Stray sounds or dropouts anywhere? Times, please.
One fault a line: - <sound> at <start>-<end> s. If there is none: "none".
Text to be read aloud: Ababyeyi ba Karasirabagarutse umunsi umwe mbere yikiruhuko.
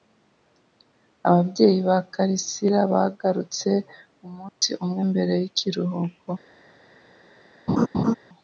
- dropout at 4.5-4.6 s
- laugh at 7.7-8.1 s